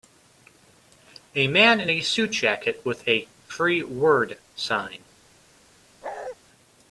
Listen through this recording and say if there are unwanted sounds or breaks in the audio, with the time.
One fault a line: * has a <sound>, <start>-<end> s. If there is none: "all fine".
* has a bark, 6.0-6.4 s